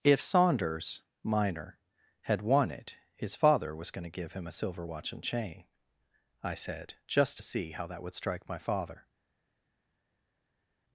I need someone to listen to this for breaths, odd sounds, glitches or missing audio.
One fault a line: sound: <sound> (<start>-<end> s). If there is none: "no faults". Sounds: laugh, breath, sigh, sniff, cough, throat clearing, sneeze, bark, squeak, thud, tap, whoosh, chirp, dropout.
no faults